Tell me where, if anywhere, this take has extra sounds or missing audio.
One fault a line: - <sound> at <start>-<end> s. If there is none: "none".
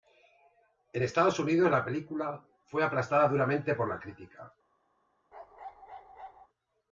- bark at 5.3-6.5 s